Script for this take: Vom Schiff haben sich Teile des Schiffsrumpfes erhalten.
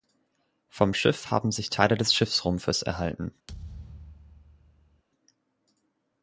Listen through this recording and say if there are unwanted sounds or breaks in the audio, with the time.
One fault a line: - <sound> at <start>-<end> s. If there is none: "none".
- thud at 3.5-5.0 s